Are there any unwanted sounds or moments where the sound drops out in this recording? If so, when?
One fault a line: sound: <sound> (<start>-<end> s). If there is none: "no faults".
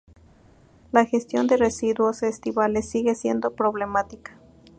no faults